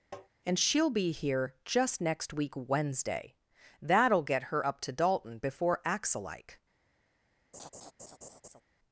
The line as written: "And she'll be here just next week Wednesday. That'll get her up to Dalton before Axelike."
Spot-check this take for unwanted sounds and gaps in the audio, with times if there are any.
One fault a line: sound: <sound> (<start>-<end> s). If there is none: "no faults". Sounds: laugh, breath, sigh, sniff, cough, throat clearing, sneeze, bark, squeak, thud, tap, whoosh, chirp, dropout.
sound: tap (0.1-0.3 s)
sound: laugh (7.5-8.6 s)